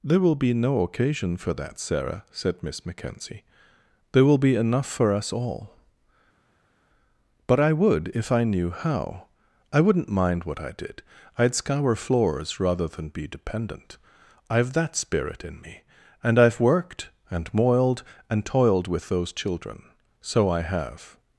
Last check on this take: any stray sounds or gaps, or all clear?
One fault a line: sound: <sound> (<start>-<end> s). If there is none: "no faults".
no faults